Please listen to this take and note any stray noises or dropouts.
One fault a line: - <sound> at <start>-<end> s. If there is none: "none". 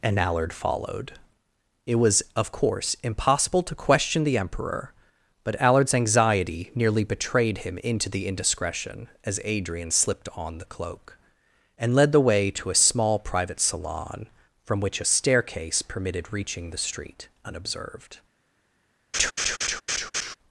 - laugh at 19.1-20.4 s